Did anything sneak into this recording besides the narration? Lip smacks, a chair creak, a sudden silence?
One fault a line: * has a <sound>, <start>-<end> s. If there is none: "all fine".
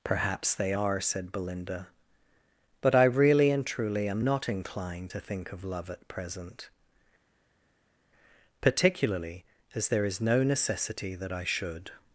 all fine